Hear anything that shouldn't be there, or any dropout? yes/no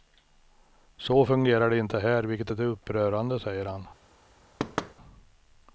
yes